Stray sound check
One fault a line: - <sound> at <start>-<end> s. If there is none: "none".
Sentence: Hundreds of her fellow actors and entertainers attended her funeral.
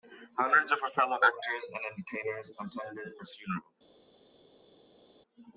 none